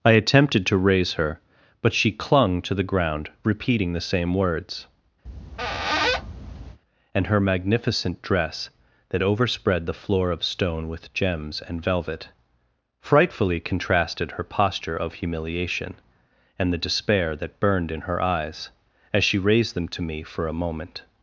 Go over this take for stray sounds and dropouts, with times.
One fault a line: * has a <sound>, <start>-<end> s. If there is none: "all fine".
* has a squeak, 5.3-6.8 s